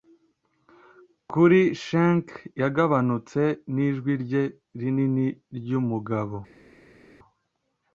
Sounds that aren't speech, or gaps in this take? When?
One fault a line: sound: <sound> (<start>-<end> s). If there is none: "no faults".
no faults